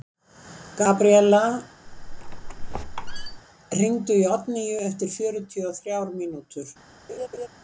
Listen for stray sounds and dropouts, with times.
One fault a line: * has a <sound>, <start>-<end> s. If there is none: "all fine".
* has a squeak, 1.9-3.4 s
* has a laugh, 7.1-7.5 s